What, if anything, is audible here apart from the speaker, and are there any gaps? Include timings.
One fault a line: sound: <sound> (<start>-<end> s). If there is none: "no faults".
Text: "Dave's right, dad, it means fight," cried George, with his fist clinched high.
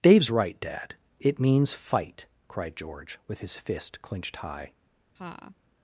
sound: laugh (5.2-5.6 s)